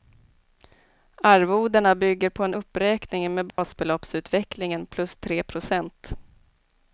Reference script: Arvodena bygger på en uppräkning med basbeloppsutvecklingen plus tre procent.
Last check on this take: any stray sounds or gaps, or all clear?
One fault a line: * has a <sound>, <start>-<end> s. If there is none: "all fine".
* has a dropout, 3.5-3.6 s